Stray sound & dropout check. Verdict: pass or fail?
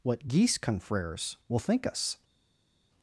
pass